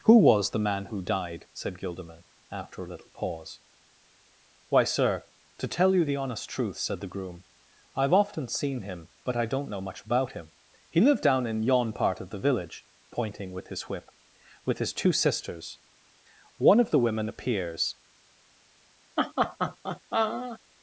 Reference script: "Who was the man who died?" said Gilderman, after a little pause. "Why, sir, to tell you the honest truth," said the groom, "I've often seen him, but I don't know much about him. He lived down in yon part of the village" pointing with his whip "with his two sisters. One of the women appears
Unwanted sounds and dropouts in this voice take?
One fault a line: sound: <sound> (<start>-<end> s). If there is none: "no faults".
sound: laugh (19.2-20.6 s)